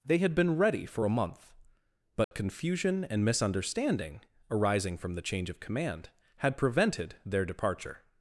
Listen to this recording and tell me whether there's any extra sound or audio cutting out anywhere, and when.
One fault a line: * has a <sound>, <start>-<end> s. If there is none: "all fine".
* has a dropout, 2.2-2.3 s